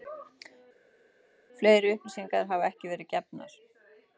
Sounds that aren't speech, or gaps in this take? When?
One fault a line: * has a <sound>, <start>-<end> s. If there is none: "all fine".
all fine